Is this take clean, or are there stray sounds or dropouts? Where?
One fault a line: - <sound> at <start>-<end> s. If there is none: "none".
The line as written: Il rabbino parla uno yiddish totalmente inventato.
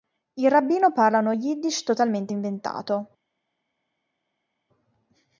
none